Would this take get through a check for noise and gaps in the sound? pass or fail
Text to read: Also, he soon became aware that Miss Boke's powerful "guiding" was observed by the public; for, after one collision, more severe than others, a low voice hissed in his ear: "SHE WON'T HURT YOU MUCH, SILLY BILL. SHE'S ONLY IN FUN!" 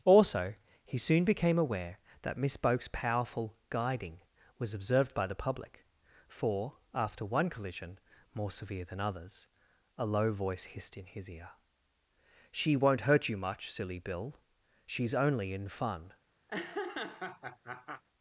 fail